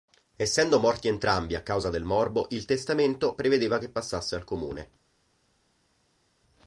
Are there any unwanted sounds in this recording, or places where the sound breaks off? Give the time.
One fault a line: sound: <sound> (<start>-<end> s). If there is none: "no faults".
no faults